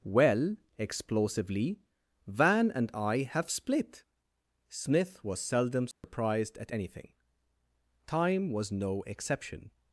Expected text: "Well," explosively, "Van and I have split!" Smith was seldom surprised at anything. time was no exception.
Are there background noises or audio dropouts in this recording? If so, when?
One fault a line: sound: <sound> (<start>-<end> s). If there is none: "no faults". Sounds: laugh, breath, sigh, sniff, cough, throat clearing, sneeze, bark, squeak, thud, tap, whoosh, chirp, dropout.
sound: dropout (5.9-6.0 s)